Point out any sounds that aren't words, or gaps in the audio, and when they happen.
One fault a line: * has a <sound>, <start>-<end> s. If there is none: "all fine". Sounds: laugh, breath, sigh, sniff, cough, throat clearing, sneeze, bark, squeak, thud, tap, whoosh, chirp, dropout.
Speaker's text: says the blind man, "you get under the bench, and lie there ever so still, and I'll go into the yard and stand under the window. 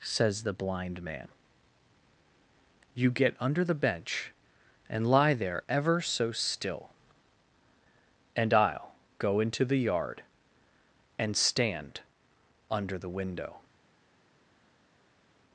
all fine